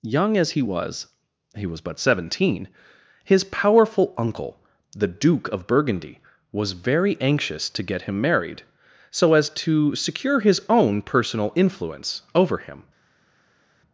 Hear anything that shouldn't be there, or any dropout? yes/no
no